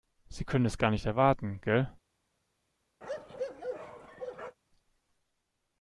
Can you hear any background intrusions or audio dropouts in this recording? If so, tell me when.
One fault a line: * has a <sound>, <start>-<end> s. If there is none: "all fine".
* has a bark, 3.0-4.6 s